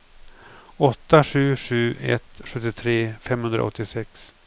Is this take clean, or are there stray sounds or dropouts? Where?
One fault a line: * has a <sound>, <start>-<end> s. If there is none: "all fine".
all fine